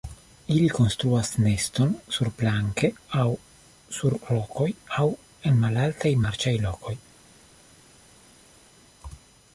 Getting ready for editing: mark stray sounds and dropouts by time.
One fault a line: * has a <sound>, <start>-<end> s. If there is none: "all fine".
all fine